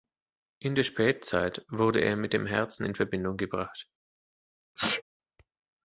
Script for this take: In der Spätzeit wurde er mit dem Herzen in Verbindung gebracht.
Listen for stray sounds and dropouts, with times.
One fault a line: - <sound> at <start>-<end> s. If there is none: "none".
- sneeze at 4.8-5.0 s